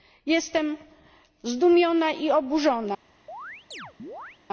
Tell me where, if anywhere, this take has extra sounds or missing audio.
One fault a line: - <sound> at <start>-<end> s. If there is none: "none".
- chirp at 3.3-4.4 s